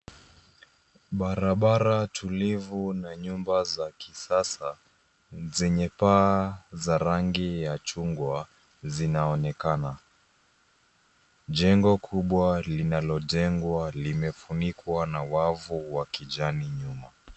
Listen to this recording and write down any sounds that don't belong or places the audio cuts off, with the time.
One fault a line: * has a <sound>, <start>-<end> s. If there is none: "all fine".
all fine